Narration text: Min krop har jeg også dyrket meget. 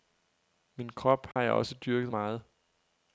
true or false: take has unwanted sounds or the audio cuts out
true